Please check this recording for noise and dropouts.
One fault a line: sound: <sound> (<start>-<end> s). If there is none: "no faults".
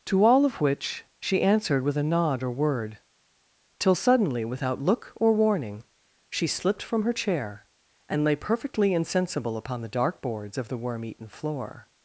no faults